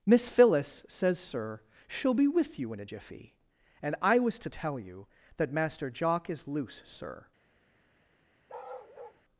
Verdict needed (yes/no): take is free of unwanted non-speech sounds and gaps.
no